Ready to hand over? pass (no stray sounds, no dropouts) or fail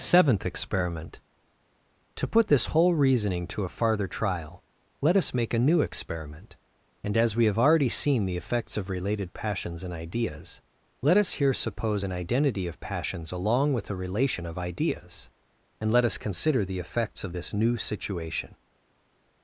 pass